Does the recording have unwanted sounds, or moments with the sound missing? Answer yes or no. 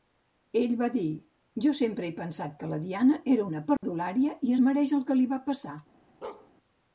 yes